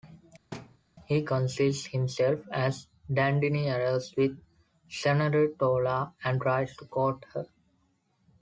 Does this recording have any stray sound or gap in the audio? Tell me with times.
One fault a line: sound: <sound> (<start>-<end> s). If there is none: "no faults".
sound: thud (0.5-0.8 s)